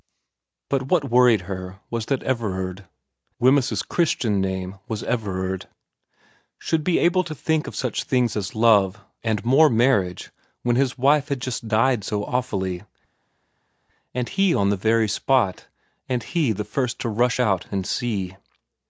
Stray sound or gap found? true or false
false